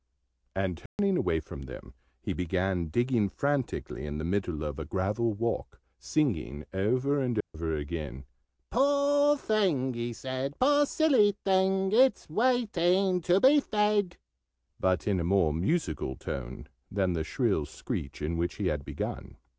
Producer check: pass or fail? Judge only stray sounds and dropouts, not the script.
fail